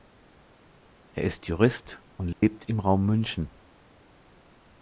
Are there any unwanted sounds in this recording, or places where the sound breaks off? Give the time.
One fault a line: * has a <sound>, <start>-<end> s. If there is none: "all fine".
* has a dropout, 2.3-2.4 s